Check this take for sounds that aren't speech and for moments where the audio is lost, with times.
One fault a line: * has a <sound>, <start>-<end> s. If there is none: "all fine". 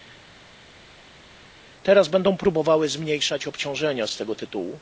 all fine